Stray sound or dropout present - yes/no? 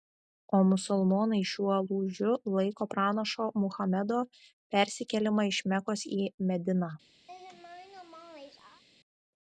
yes